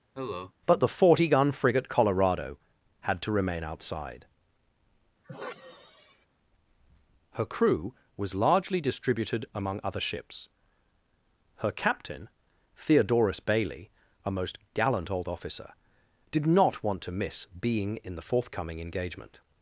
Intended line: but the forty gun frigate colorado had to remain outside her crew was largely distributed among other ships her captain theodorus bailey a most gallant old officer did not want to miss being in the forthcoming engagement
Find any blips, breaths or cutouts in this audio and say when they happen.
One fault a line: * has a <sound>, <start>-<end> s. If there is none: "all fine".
* has a cough, 0.1-0.5 s
* has a sigh, 5.2-6.3 s